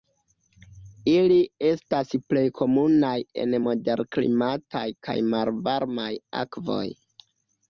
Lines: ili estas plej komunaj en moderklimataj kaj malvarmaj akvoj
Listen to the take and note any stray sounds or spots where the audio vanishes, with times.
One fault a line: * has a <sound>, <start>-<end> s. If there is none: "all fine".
all fine